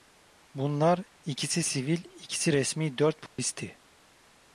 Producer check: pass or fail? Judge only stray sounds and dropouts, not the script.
fail